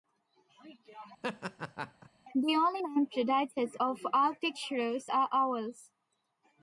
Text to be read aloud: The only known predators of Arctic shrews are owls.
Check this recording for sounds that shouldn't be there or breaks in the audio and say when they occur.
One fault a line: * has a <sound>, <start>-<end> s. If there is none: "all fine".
* has a laugh, 1.2-2.1 s